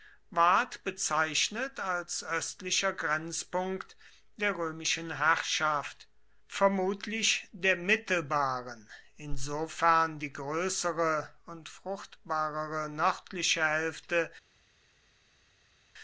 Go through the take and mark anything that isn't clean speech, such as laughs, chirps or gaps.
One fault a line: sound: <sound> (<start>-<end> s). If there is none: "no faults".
no faults